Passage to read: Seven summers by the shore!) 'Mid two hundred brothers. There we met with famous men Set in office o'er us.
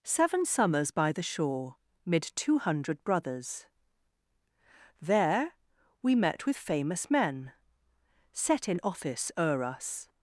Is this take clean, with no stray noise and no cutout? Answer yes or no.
yes